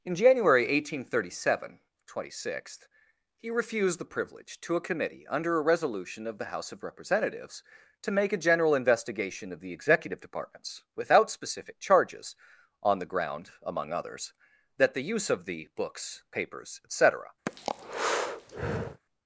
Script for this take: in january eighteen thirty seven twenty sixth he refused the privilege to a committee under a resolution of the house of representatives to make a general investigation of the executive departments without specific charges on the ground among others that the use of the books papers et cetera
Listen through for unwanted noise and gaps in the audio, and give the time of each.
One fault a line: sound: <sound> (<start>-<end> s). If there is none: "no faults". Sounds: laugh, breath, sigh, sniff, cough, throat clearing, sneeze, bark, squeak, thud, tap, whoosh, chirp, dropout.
sound: breath (17.5-19.0 s)